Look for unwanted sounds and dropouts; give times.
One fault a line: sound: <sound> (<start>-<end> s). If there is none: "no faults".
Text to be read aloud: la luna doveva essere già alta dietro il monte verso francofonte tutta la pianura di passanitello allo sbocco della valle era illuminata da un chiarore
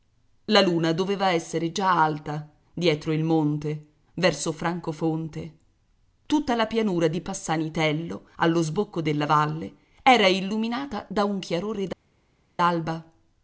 no faults